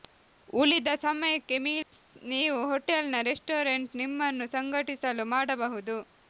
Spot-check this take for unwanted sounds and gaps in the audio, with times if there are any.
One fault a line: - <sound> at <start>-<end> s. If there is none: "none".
- dropout at 1.8-1.9 s